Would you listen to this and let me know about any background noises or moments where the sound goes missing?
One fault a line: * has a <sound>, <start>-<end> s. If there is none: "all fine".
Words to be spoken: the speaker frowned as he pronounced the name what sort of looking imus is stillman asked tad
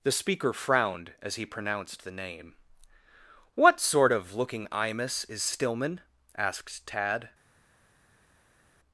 all fine